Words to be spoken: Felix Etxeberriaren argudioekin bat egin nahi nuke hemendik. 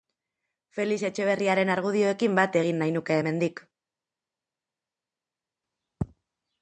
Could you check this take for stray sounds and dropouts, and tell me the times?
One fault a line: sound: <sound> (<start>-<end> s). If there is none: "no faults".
no faults